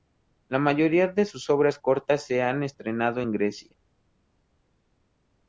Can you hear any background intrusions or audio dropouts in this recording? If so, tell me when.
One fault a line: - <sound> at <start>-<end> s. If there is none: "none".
none